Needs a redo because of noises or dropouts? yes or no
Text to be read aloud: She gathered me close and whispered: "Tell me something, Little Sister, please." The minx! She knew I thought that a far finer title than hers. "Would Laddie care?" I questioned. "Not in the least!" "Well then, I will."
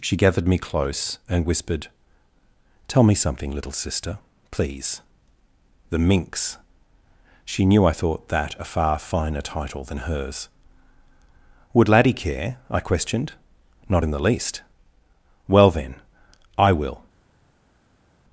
no